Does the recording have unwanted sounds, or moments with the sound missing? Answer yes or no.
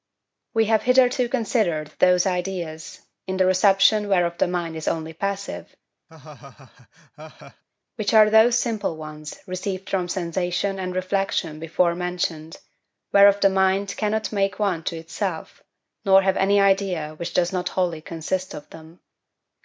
yes